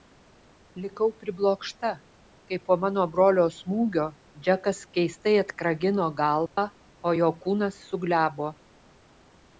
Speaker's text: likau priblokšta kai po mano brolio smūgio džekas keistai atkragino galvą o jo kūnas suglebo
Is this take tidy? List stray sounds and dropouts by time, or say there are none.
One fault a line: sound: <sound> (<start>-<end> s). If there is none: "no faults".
sound: dropout (6.5-6.6 s)